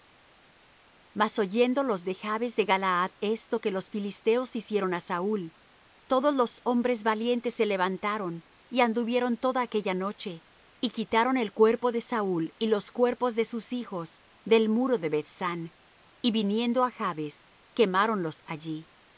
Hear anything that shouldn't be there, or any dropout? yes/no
no